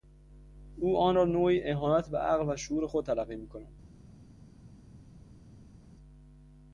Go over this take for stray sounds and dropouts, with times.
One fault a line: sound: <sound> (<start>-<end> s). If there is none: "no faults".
no faults